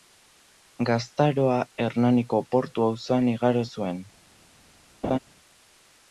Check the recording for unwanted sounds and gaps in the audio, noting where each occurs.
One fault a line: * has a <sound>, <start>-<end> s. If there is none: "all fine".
* has a laugh, 5.0-5.2 s